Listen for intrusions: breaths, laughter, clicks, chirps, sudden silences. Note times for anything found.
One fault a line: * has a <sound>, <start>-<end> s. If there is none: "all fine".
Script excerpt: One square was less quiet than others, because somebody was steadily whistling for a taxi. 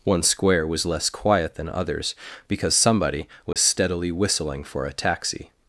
* has a dropout, 3.5-3.6 s